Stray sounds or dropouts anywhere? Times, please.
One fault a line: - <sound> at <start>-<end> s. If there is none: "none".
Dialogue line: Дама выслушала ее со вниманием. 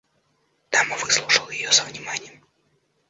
none